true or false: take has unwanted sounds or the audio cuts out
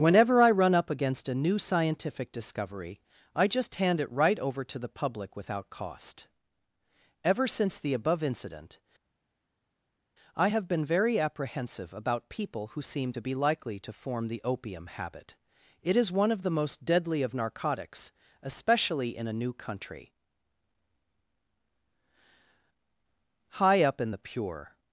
false